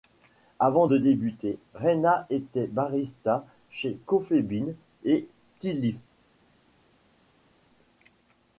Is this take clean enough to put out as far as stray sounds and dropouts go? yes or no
yes